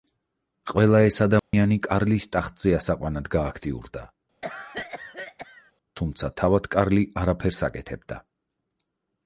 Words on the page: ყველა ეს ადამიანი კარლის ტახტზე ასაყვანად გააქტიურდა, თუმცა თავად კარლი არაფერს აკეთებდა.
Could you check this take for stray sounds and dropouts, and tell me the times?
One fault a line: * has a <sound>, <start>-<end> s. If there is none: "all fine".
* has a dropout, 1.4-1.5 s
* has a cough, 4.4-5.7 s